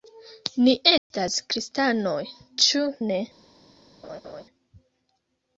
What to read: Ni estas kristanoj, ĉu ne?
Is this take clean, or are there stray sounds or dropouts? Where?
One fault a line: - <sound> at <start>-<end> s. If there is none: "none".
- dropout at 1.0-1.1 s
- laugh at 4.0-4.4 s